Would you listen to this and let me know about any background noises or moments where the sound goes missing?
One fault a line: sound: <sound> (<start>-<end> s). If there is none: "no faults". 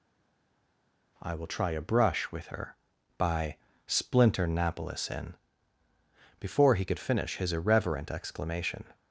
no faults